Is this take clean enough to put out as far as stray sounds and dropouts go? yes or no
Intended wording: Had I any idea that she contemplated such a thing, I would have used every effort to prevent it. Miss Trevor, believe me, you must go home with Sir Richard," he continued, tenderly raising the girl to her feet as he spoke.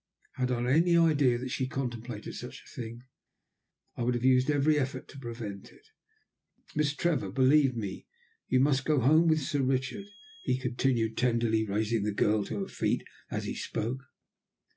yes